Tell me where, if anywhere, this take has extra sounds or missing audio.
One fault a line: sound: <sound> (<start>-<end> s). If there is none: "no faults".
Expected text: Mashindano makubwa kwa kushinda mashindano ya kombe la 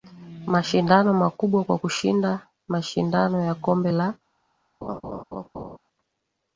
sound: laugh (4.8-5.8 s)